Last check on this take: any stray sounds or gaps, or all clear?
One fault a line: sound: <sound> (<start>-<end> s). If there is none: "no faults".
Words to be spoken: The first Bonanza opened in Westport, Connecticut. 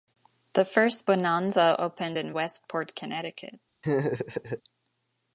sound: laugh (3.8-4.6 s)